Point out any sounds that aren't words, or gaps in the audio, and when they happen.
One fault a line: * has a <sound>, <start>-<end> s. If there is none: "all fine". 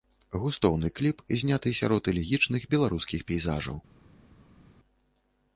all fine